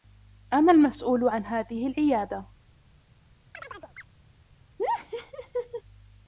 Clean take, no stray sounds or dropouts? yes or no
no